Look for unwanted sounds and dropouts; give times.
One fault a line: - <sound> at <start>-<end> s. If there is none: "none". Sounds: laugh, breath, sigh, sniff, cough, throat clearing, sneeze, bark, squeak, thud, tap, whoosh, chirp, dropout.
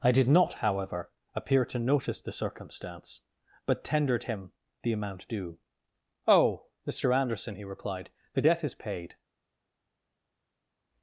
none